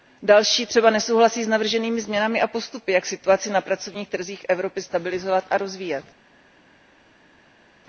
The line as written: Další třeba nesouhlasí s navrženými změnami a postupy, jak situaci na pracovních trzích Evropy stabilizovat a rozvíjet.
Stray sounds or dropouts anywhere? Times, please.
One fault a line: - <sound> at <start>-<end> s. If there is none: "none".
none